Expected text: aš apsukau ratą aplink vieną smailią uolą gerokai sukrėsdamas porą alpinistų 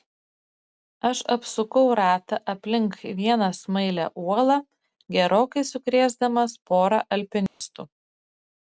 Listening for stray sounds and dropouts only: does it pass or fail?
fail